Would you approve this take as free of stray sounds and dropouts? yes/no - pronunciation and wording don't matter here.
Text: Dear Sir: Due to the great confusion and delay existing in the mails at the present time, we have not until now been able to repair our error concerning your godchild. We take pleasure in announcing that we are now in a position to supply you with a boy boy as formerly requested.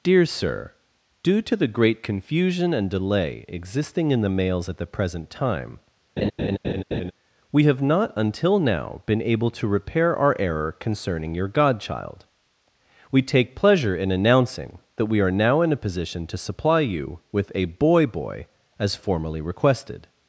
no